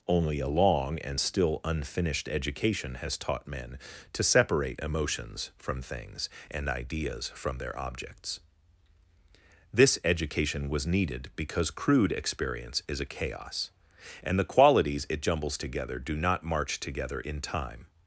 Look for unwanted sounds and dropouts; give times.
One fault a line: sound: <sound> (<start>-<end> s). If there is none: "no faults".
no faults